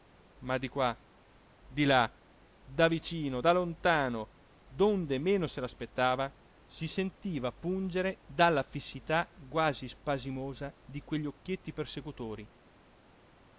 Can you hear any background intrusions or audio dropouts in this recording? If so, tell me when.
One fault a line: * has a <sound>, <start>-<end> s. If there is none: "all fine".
all fine